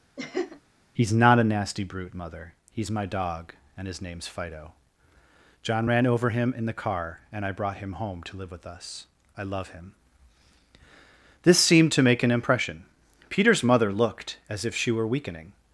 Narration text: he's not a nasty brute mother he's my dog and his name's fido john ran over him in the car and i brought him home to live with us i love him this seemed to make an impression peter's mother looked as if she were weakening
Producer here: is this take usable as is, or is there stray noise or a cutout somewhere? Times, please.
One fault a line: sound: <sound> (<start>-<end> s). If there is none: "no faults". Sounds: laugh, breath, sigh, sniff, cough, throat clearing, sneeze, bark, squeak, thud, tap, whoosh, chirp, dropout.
sound: laugh (0.2-0.6 s)